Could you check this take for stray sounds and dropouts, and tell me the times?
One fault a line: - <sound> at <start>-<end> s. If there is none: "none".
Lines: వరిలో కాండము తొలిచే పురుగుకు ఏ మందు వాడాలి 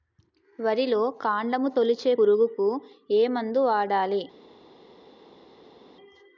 none